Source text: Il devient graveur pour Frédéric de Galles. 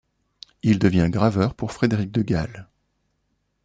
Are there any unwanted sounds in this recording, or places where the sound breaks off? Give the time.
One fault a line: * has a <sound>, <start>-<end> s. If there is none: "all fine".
all fine